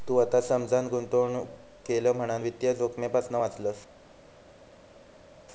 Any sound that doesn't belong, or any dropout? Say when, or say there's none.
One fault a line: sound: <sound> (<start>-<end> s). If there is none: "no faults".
no faults